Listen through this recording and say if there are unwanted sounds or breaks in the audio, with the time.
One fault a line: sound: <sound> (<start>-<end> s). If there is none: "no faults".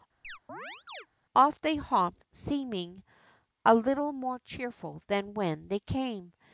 sound: chirp (0.2-1.1 s)